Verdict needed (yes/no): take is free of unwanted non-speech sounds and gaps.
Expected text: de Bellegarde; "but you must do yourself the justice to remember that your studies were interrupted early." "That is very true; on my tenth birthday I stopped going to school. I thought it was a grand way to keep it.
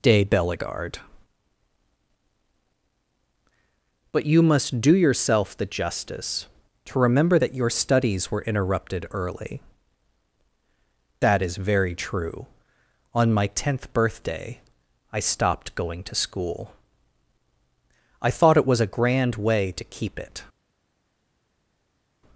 yes